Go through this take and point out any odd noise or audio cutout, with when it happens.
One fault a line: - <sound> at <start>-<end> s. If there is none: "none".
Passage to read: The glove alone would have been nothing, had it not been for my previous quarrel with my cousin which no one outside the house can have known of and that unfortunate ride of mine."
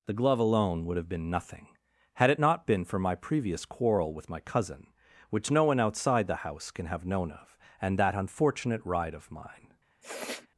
- sniff at 10.0-10.5 s